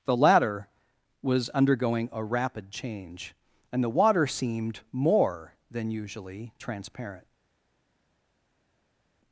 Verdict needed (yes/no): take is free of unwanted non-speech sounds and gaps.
yes